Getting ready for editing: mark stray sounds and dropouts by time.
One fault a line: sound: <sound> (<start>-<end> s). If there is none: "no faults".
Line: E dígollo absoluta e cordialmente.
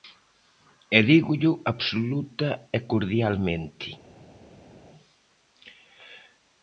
no faults